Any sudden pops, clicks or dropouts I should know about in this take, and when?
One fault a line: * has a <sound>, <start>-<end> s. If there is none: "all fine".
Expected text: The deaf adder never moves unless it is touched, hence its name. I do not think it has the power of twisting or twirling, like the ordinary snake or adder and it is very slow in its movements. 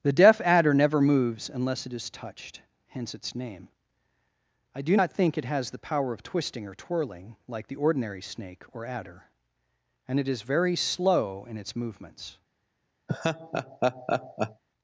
* has a laugh, 13.1-14.6 s